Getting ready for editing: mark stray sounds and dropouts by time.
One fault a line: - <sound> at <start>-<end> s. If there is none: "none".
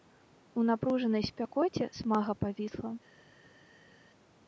none